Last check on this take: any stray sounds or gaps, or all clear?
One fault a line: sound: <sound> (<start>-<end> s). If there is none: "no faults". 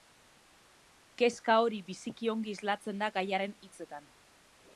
no faults